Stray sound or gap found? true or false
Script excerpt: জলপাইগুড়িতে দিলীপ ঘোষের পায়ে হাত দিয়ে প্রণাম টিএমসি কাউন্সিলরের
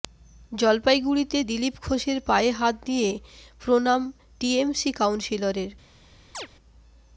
true